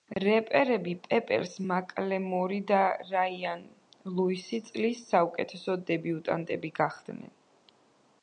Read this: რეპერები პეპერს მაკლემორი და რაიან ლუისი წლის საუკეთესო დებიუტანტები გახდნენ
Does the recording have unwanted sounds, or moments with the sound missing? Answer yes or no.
no